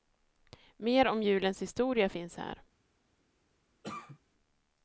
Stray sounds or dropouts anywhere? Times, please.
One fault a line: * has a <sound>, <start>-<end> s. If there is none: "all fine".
* has a cough, 3.8-4.2 s